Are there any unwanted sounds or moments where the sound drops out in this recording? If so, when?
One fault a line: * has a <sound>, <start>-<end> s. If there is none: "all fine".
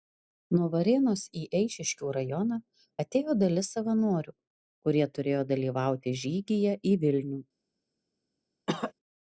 * has a cough, 8.7-8.9 s